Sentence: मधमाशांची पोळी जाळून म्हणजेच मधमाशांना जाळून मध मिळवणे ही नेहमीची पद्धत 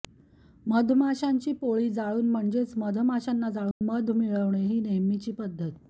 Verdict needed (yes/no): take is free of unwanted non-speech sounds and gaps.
no